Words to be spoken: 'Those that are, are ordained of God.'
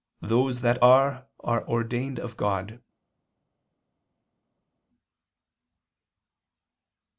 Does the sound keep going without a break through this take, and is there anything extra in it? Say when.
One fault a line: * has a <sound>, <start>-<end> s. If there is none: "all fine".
all fine